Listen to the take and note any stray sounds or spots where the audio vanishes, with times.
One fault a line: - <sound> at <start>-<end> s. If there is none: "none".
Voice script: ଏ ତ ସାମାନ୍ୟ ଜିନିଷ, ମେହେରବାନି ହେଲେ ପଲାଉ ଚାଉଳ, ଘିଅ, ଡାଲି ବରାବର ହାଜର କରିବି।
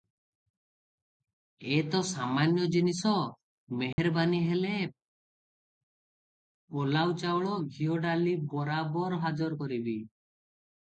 - dropout at 3.9-4.0 s